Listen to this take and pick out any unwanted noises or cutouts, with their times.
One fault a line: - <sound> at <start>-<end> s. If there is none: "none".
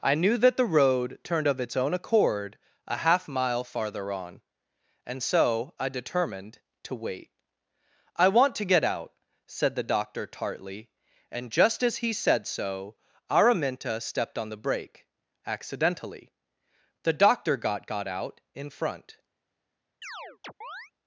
- chirp at 20.0-20.9 s